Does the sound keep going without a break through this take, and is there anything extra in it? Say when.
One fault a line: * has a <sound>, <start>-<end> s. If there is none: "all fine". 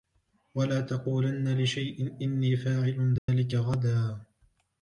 * has a dropout, 3.2-3.3 s